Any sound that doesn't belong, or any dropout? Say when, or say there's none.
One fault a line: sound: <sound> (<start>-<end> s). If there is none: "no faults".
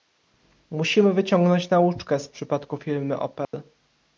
sound: dropout (3.4-3.5 s)